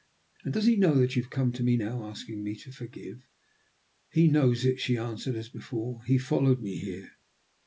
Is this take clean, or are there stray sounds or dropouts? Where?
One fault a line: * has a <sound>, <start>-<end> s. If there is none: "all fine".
all fine